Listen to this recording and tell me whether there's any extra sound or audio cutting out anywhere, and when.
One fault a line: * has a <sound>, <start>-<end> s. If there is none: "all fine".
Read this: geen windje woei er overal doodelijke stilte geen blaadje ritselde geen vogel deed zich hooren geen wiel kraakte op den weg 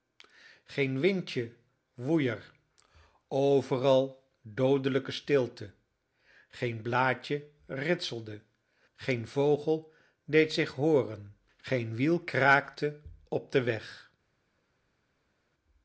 all fine